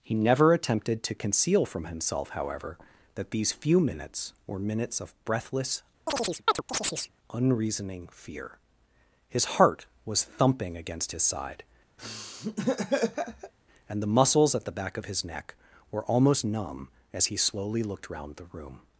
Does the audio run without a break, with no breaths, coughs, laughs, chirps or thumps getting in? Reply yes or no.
no